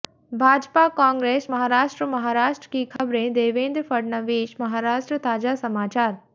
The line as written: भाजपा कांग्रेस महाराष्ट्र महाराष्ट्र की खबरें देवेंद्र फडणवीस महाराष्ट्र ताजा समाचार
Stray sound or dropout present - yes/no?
yes